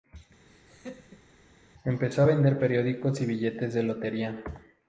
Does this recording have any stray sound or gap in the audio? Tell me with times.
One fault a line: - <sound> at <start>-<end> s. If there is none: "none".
- laugh at 0.5-1.3 s